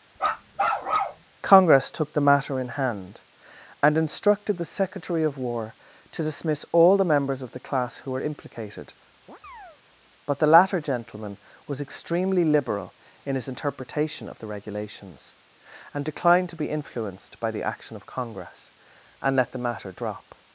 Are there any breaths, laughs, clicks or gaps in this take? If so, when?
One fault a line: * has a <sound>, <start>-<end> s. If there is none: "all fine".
* has a bark, 0.2-1.2 s
* has a chirp, 9.3-9.8 s